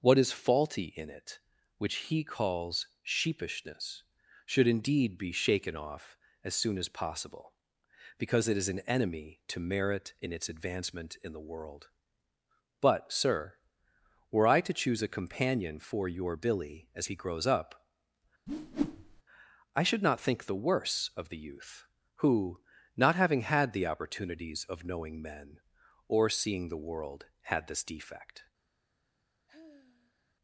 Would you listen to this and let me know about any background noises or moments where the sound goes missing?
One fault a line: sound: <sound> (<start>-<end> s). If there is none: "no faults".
sound: whoosh (18.5-19.2 s)
sound: sigh (29.5-30.3 s)